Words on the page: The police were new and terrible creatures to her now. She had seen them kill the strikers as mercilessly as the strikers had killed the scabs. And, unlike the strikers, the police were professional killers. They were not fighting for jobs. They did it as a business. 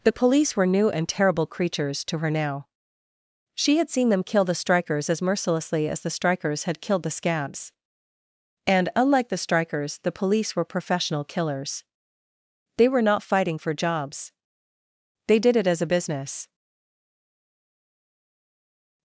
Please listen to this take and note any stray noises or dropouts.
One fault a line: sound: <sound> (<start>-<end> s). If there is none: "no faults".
no faults